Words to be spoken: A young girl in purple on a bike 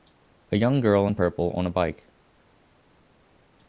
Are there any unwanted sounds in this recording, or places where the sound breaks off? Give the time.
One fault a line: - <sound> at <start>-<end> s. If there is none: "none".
none